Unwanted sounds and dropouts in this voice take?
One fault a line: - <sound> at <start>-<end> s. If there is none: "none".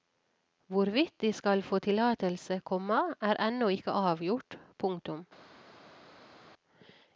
none